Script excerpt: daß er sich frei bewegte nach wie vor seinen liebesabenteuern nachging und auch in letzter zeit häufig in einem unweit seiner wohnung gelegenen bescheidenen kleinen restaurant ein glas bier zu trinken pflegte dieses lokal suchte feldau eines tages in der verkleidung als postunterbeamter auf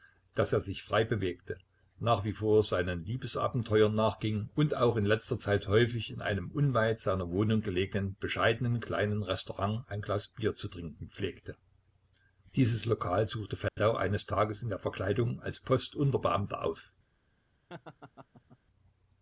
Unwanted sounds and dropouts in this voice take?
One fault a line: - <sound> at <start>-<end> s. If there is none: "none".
- dropout at 13.7-13.8 s
- laugh at 17.7-18.6 s